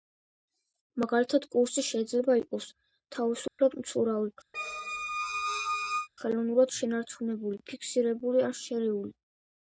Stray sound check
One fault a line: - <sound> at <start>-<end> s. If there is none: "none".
- dropout at 3.5-3.6 s
- squeak at 4.5-6.1 s